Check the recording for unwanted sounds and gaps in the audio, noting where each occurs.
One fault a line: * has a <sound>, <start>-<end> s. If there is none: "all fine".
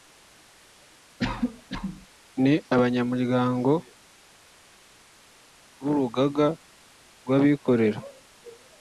* has a cough, 1.2-2.1 s